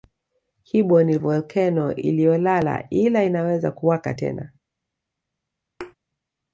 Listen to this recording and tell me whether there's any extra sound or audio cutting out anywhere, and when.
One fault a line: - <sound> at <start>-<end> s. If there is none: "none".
- thud at 5.8-5.9 s